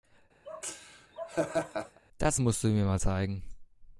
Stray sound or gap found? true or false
true